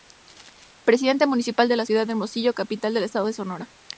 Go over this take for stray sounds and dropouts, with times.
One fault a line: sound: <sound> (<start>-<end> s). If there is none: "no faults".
no faults